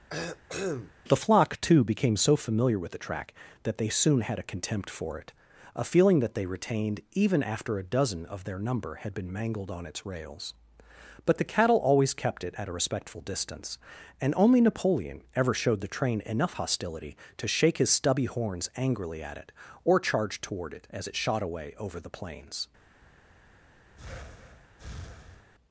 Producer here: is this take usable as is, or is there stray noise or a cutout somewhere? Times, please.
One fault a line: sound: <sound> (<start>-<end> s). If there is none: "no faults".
sound: cough (0.1-0.9 s)
sound: breath (24.0-25.5 s)